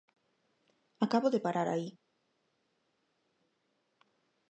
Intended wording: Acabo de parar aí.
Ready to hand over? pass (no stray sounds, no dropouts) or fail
pass